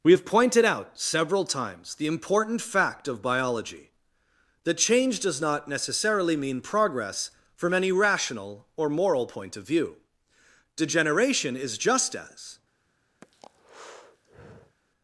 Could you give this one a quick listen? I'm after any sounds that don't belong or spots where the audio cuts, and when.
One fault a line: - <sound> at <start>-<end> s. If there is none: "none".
- breath at 13.2-14.8 s